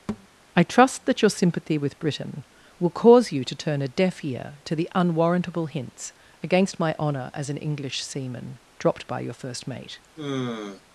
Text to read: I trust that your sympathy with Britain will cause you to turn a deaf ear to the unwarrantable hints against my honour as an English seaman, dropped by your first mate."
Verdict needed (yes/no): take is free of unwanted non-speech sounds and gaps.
no